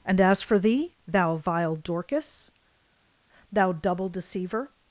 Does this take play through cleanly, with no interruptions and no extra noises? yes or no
yes